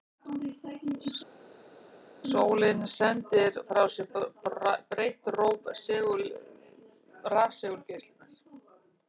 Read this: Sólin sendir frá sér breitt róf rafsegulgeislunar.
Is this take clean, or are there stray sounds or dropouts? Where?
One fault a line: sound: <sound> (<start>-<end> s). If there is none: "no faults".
no faults